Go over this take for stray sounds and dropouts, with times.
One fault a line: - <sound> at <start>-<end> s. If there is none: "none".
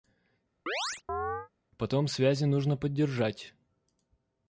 - chirp at 0.7-1.5 s